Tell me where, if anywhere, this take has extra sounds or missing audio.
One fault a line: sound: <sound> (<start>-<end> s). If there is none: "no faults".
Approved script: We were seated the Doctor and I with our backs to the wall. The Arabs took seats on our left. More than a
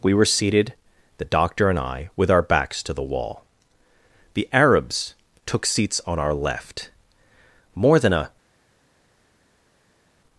no faults